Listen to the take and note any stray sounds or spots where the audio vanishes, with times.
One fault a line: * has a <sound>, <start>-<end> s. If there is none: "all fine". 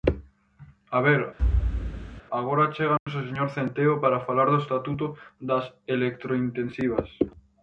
* has a thud, 1.4-2.2 s
* has a dropout, 3.0-3.1 s